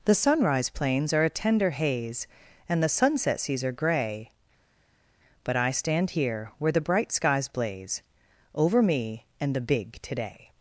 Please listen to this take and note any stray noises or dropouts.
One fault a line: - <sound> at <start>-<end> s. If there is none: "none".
none